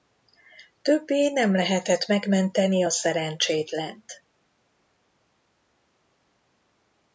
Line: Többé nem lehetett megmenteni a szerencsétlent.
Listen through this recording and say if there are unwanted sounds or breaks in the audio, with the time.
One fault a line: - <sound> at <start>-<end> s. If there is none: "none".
none